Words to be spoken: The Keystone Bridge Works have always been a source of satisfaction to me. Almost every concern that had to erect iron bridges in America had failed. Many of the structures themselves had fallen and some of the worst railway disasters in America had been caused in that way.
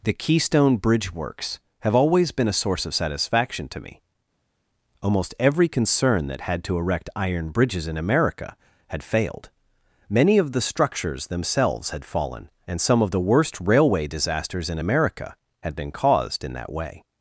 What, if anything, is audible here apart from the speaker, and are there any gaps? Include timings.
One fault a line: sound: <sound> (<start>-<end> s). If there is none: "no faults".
no faults